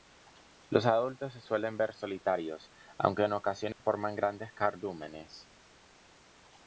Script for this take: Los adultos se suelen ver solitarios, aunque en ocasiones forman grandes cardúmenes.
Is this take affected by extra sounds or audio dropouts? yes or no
yes